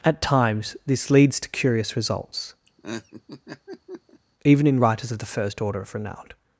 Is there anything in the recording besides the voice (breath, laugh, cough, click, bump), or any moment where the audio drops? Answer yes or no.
yes